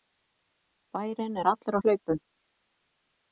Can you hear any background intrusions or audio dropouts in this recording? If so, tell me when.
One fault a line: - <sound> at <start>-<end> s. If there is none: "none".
none